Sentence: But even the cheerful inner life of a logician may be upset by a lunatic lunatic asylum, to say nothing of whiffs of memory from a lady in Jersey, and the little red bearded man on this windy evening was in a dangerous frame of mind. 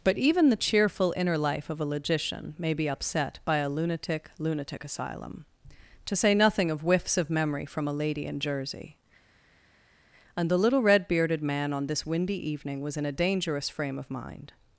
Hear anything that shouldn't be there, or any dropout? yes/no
no